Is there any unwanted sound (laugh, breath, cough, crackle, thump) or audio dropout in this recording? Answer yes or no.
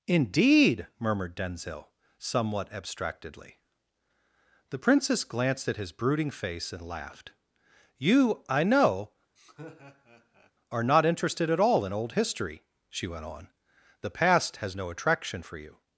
yes